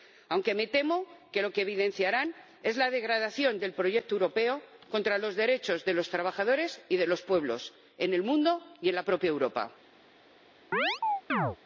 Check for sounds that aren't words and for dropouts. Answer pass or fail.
fail